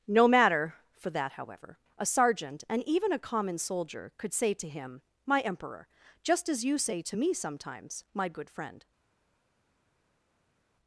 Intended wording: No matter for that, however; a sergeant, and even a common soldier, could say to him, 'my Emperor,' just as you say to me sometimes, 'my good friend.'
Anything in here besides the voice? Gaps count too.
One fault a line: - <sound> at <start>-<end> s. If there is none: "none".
none